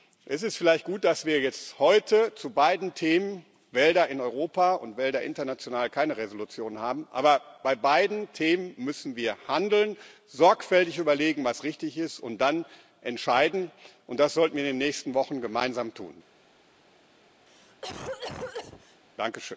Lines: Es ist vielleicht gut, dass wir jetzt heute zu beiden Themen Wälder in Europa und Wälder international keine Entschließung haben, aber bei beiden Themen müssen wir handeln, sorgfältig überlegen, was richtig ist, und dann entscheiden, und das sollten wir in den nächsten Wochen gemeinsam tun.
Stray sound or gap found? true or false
true